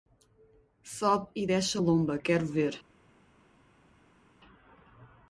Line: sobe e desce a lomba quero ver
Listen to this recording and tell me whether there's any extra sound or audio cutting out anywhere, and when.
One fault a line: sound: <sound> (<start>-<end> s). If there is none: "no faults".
no faults